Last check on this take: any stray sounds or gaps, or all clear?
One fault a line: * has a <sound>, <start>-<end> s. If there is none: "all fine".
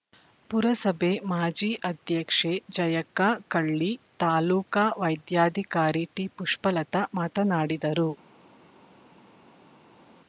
all fine